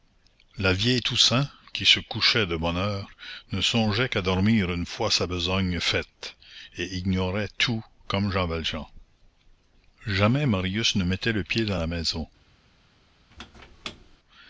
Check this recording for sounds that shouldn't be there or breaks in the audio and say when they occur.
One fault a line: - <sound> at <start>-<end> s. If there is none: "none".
- squeak at 13.3-14.2 s